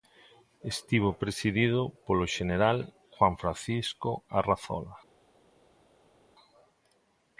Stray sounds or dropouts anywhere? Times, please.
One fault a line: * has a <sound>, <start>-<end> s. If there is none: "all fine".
all fine